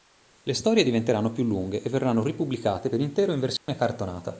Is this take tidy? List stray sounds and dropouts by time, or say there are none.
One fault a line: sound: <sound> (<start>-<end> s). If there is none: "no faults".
sound: dropout (3.6-3.7 s)